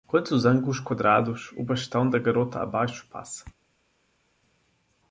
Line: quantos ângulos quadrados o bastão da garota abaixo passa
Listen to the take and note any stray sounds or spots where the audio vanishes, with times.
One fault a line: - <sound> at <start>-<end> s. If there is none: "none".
none